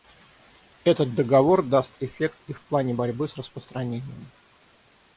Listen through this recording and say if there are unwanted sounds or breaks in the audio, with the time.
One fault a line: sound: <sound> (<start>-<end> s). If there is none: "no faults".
no faults